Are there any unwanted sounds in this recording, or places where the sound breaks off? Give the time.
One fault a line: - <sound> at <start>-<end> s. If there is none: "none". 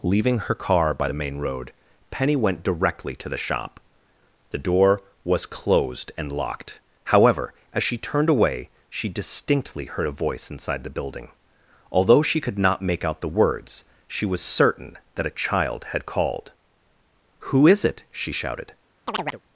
- chirp at 19.1-19.4 s